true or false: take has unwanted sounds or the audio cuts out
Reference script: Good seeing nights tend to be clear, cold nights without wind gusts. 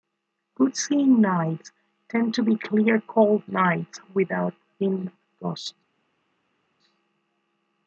false